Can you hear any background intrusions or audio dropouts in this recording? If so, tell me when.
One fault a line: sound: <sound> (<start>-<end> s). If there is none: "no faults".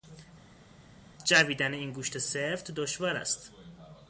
no faults